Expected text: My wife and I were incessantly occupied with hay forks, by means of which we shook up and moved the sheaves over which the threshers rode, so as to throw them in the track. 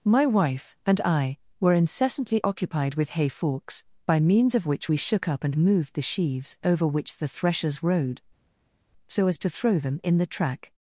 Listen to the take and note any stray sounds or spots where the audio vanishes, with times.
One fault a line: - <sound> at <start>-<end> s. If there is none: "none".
none